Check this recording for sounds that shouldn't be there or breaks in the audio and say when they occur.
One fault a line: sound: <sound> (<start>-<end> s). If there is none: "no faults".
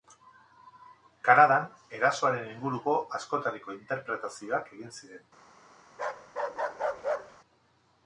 sound: bark (5.9-7.4 s)